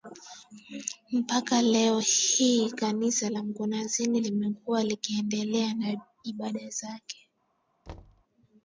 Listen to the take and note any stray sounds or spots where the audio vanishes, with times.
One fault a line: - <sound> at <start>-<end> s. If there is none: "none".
- thud at 7.9-8.2 s